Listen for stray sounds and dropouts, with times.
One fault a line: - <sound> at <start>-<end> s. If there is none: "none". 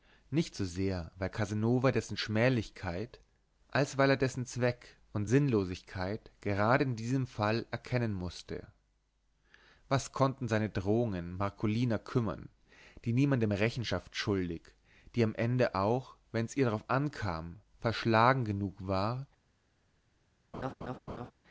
- laugh at 20.5-21.3 s